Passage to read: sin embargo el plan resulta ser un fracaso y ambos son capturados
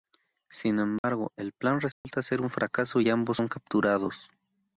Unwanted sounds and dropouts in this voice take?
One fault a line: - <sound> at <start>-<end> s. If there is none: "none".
- dropout at 1.0-1.0 s
- dropout at 1.9-2.0 s